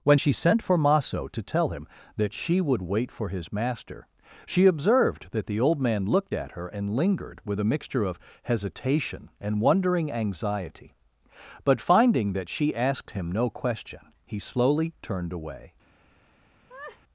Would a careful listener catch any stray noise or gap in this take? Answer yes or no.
yes